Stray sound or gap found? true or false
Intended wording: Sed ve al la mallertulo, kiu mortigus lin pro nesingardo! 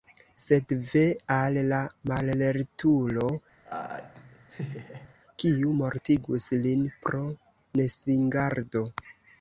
true